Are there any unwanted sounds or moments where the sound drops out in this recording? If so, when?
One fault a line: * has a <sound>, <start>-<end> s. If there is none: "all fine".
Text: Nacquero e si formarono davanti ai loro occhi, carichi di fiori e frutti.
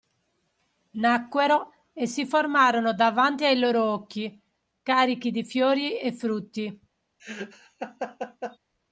* has a laugh, 7.2-8.6 s